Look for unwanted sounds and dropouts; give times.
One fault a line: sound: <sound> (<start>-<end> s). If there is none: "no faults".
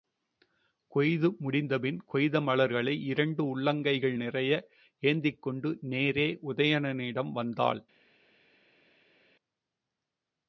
no faults